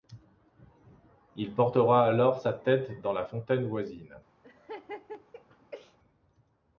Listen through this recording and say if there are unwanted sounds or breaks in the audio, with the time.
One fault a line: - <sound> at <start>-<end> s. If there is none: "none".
- laugh at 4.4-6.0 s